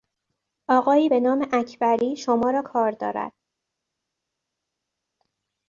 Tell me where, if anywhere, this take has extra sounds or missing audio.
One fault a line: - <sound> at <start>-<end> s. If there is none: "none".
none